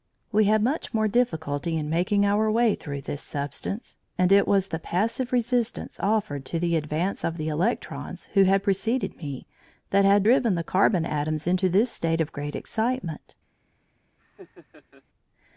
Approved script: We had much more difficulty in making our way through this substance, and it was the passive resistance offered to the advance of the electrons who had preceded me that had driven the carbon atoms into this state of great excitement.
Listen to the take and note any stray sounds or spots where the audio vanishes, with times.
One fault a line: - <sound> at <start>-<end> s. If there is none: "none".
- laugh at 14.2-15.0 s